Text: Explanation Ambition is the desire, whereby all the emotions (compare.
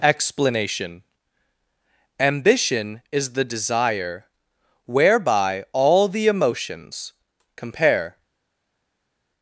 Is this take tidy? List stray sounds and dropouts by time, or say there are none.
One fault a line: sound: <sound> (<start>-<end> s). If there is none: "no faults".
no faults